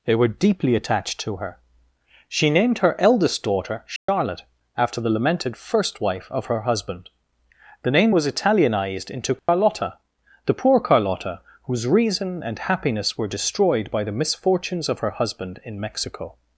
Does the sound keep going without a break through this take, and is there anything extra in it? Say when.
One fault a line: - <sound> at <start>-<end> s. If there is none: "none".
- dropout at 4.0-4.1 s
- dropout at 9.4-9.5 s